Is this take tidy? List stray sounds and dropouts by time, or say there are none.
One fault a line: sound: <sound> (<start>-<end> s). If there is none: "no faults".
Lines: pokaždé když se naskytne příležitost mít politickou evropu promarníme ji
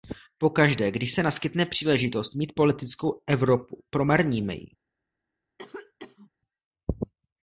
sound: cough (5.6-6.3 s)